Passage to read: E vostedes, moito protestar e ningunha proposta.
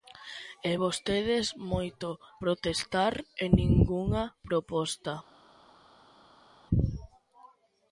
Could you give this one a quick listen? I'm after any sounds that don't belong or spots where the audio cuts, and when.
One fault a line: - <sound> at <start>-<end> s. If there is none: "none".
none